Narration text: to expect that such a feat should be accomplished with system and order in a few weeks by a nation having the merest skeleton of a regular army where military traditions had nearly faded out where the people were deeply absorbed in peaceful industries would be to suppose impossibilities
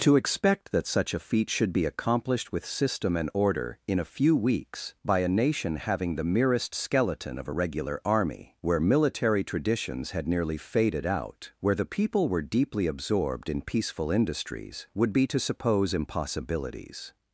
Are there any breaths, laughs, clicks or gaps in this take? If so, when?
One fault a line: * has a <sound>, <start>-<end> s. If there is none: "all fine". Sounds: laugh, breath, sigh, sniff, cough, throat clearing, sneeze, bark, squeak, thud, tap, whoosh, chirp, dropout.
all fine